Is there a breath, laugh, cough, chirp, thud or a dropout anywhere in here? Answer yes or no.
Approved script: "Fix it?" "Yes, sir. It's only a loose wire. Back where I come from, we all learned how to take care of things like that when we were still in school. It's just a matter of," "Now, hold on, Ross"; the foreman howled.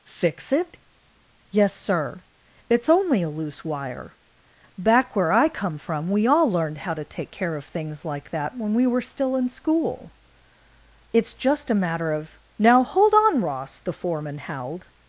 no